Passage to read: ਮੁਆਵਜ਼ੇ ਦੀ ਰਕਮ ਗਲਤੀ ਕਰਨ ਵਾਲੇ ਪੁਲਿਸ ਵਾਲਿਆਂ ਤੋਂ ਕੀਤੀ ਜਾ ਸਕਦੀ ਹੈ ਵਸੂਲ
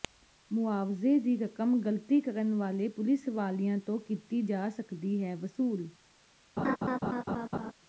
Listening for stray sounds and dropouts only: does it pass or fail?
fail